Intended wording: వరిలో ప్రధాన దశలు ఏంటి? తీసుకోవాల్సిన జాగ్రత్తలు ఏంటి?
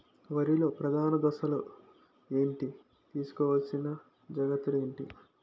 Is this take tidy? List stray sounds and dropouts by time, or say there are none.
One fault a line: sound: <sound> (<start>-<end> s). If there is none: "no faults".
no faults